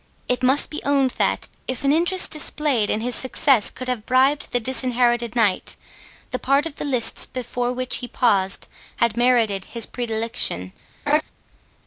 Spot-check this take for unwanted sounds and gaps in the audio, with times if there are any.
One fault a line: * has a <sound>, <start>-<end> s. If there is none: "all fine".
* has a laugh, 11.1-11.2 s